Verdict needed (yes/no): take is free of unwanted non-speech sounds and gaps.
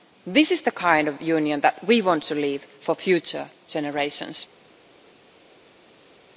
yes